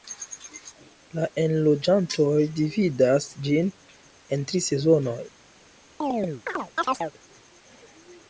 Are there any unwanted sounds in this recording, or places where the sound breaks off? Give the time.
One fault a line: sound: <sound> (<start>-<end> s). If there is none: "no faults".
sound: chirp (6.0-7.1 s)